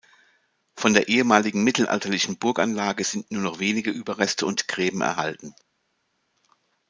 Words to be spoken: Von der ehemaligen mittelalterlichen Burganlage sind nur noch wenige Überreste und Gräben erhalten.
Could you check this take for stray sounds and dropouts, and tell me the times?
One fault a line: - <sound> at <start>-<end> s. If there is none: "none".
none